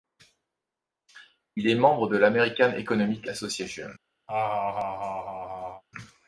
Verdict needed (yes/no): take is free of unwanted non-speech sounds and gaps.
no